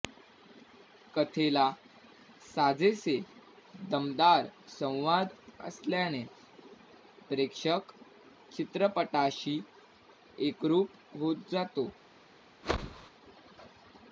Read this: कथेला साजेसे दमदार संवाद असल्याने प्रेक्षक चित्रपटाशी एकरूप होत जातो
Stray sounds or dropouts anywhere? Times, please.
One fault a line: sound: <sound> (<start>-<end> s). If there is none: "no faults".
sound: whoosh (12.6-13.1 s)